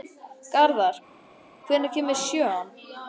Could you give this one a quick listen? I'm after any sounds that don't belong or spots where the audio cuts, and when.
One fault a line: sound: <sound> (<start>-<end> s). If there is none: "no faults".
no faults